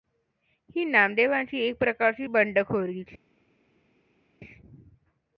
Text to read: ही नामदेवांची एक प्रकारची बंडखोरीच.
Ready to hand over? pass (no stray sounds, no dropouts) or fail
pass